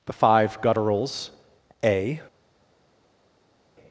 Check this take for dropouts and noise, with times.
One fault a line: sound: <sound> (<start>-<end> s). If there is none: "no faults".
no faults